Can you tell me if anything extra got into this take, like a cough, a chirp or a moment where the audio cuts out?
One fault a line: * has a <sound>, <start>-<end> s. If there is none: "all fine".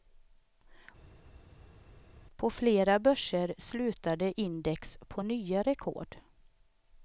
all fine